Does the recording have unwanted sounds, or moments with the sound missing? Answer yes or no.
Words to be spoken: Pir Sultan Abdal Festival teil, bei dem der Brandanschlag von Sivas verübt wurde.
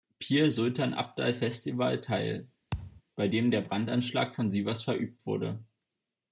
yes